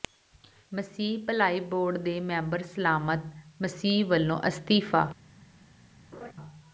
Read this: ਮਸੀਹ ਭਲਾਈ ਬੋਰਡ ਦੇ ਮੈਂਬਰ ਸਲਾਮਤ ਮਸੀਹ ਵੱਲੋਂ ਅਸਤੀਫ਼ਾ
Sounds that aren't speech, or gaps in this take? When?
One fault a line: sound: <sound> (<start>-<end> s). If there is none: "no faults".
sound: laugh (6.1-6.3 s)